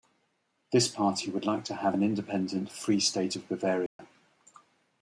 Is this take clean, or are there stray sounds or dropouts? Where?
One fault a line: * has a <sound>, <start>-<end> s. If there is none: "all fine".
* has a dropout, 3.9-4.0 s